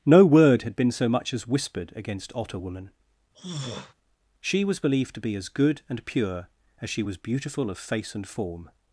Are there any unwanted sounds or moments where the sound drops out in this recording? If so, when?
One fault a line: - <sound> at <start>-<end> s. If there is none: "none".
- throat clearing at 3.3-3.9 s